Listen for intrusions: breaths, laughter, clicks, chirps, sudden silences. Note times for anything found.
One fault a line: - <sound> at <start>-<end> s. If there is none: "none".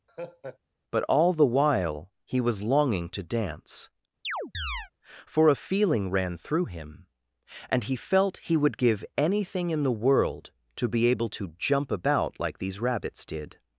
- laugh at 0.1-0.6 s
- chirp at 4.2-4.9 s